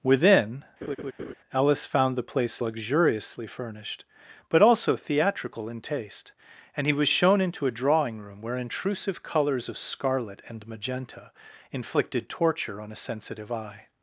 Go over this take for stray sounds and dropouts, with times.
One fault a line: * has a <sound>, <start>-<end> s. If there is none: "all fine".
* has a laugh, 0.8-1.3 s